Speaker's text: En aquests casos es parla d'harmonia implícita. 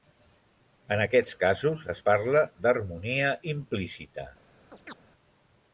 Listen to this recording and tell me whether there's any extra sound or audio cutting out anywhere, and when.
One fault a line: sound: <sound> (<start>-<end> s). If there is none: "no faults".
sound: chirp (4.7-5.0 s)